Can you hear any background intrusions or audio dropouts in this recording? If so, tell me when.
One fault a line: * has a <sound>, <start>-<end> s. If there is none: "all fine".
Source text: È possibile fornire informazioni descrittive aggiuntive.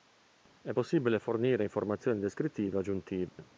* has a dropout, 3.3-3.4 s